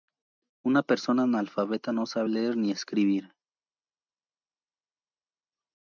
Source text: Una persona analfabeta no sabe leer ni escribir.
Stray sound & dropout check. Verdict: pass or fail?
pass